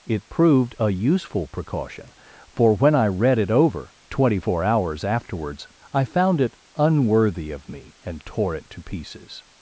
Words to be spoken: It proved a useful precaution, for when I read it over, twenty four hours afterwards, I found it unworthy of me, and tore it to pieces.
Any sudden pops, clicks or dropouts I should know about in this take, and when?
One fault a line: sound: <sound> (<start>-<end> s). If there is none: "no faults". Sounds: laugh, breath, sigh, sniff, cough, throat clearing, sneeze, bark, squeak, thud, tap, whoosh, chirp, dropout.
no faults